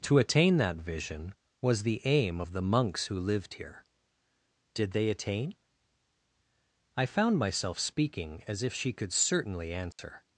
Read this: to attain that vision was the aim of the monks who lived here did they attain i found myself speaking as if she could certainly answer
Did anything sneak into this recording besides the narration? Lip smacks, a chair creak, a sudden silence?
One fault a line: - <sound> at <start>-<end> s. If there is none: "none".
- dropout at 9.9-10.0 s